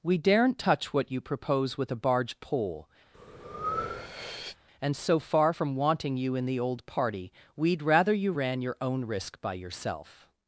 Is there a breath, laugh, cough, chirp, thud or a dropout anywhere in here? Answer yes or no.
yes